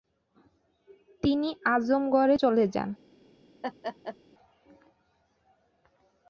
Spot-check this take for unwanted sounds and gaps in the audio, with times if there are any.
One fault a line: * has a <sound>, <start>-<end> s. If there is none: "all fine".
* has a laugh, 3.6-4.2 s